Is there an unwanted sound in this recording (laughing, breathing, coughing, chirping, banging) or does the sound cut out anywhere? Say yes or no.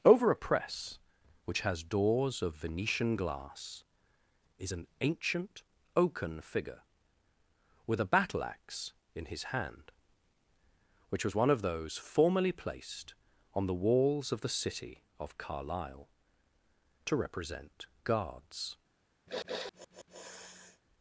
yes